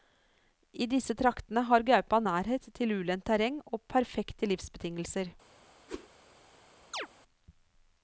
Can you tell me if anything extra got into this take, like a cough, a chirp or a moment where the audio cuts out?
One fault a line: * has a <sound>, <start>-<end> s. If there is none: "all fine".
* has a whoosh, 5.9-6.1 s
* has a chirp, 6.9-7.1 s